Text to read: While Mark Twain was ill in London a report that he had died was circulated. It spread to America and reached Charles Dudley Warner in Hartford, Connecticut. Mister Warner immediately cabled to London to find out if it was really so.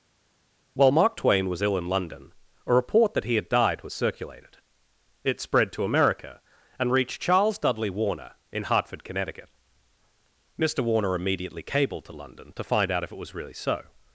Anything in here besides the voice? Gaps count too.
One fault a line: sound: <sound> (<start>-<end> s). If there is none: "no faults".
no faults